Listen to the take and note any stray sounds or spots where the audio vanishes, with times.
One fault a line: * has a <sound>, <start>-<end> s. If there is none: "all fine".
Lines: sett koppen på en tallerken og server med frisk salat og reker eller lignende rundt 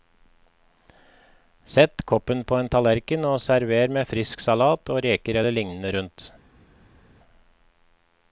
all fine